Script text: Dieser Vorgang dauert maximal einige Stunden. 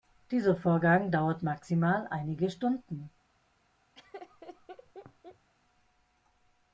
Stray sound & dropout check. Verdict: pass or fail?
fail